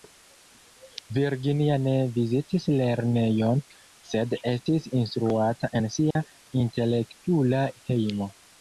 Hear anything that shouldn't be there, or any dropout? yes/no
yes